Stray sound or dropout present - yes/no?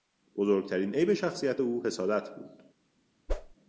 yes